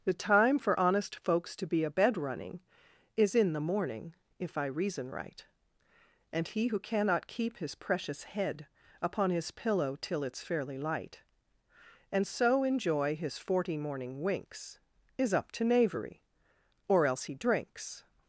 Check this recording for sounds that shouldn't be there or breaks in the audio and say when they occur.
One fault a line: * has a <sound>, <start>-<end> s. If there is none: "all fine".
all fine